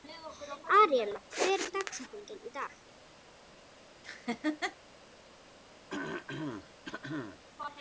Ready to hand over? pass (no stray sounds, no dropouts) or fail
fail